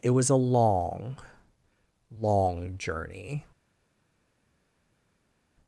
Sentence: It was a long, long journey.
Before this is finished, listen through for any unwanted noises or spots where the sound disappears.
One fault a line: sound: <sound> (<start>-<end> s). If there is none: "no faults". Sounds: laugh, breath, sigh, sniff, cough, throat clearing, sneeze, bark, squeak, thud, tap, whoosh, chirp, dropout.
no faults